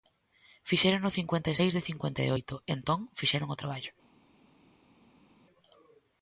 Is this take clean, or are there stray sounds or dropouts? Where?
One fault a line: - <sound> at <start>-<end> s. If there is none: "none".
none